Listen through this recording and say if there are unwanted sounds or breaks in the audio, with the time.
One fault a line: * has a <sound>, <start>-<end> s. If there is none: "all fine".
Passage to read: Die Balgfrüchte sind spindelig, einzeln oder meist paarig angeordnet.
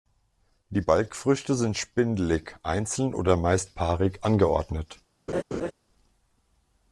* has a laugh, 5.3-5.7 s